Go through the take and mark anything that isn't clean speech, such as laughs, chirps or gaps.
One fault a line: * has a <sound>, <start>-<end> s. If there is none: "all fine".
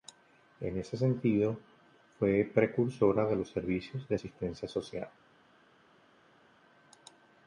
all fine